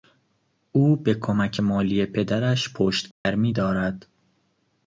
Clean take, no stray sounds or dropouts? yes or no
no